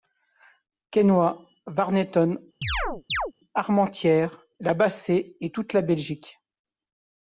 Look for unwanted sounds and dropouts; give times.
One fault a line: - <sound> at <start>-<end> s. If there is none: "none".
- chirp at 2.6-3.3 s